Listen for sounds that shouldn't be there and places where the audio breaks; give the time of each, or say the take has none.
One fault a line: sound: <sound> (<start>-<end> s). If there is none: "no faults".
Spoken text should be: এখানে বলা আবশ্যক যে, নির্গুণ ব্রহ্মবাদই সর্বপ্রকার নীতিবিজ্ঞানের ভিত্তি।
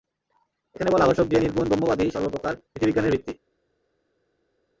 no faults